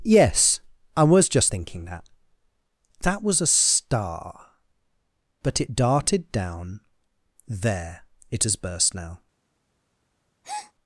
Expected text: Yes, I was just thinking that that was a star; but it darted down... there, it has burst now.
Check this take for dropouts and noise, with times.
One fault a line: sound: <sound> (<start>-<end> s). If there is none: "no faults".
sound: breath (10.4-10.7 s)